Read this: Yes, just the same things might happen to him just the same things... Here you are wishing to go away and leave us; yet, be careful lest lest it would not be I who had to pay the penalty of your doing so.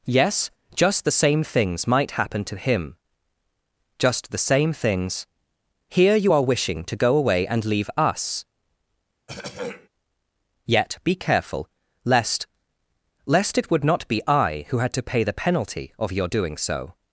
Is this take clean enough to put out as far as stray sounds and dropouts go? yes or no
no